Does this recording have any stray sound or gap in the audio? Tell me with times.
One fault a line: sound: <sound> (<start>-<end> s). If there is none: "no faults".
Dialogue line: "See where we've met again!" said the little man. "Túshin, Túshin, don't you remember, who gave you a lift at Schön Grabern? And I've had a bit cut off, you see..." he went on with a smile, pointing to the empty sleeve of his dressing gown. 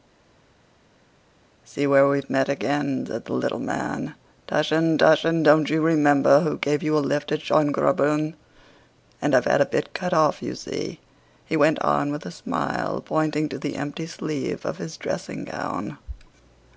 no faults